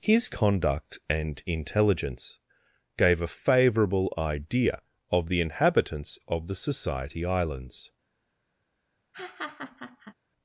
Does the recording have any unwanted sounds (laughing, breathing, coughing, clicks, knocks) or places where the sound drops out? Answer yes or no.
yes